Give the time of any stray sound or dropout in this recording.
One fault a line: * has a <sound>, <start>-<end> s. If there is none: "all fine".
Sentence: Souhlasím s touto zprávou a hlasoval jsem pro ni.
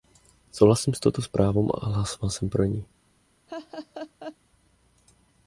* has a laugh, 3.5-4.4 s